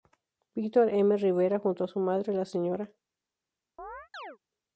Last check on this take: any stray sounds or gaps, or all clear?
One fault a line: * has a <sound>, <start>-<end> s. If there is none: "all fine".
* has a chirp, 3.8-4.4 s